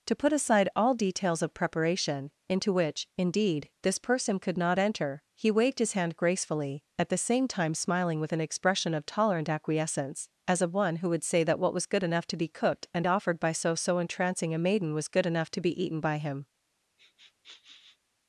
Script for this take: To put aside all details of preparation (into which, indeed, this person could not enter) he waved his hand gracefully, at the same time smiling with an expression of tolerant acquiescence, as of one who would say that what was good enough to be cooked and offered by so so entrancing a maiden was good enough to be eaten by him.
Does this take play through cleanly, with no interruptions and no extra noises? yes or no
no